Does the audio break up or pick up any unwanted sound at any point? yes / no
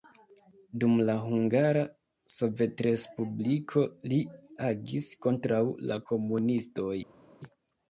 no